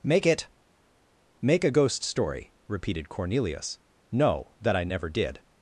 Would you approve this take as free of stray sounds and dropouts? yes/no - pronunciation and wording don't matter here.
yes